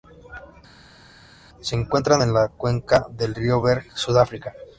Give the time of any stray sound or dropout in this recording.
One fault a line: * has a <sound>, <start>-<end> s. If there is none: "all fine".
all fine